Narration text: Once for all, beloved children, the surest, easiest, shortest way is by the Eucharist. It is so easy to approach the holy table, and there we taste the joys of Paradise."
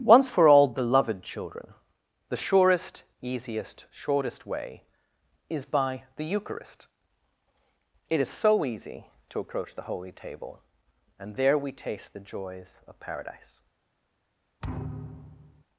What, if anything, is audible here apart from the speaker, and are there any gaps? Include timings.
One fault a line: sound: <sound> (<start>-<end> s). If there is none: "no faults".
sound: thud (14.6-15.6 s)